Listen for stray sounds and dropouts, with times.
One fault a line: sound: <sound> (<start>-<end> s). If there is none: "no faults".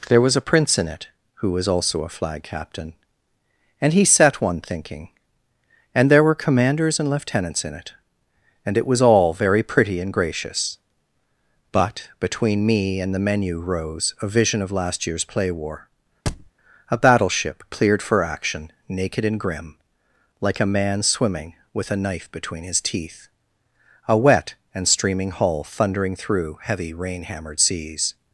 sound: thud (16.3-16.5 s)